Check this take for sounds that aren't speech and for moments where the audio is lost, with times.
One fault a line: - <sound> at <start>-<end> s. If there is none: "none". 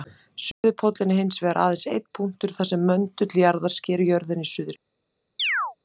- dropout at 0.5-0.6 s
- chirp at 5.4-5.8 s